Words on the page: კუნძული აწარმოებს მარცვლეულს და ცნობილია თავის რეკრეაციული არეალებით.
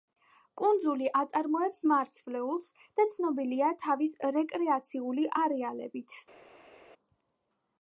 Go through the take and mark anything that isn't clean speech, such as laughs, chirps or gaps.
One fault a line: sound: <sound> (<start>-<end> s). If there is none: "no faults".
no faults